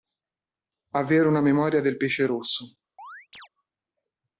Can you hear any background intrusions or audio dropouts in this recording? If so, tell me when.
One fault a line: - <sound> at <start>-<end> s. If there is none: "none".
- chirp at 3.0-3.5 s